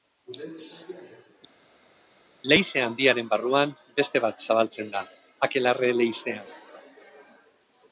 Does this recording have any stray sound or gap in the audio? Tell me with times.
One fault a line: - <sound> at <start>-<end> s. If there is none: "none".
none